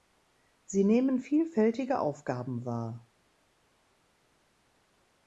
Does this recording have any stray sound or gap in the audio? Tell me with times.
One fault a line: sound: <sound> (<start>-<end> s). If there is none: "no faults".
no faults